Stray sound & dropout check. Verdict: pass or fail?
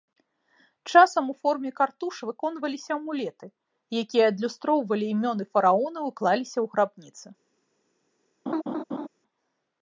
fail